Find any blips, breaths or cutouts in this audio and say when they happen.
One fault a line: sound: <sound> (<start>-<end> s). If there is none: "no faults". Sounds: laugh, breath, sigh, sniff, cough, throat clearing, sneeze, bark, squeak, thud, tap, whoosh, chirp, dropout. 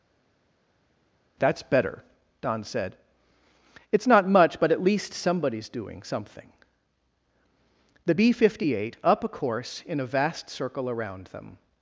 no faults